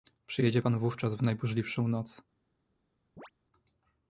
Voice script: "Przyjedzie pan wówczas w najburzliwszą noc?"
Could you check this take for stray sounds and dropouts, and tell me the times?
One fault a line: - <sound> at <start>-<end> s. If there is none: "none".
- chirp at 3.2-3.3 s